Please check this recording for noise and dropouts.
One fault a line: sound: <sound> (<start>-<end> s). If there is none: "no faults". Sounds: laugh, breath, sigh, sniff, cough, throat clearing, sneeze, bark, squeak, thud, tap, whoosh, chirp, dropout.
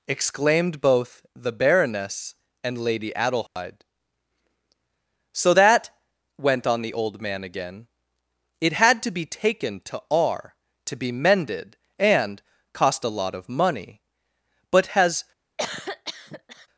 sound: dropout (3.5-3.6 s)
sound: cough (15.6-16.7 s)